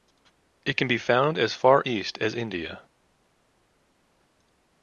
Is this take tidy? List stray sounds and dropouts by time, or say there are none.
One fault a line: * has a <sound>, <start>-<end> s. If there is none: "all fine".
all fine